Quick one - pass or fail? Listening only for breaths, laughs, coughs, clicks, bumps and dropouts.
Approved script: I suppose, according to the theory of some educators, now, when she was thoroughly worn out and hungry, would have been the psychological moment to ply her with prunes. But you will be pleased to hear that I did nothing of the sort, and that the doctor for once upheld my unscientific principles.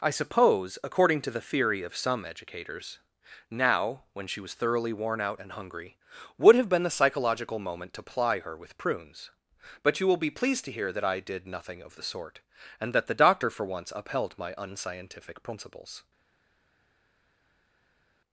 pass